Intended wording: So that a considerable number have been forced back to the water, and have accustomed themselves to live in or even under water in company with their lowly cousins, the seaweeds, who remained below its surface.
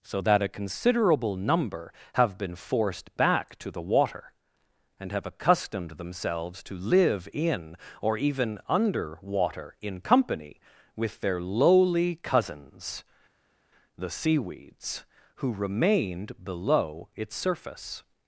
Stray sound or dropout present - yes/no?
no